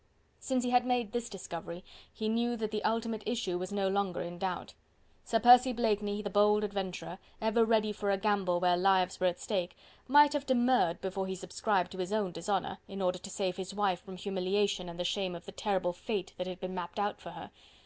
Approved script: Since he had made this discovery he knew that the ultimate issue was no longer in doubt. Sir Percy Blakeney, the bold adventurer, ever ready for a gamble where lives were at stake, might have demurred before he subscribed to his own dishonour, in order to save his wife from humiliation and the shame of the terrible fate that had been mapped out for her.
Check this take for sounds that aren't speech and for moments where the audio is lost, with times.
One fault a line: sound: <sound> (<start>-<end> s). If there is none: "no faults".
no faults